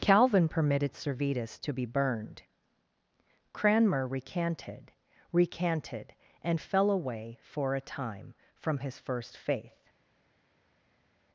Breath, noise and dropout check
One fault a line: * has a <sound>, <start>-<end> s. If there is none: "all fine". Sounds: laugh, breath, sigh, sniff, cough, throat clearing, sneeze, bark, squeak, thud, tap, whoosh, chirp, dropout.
all fine